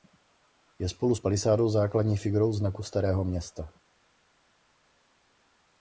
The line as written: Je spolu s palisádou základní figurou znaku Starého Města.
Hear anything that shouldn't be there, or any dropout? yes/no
no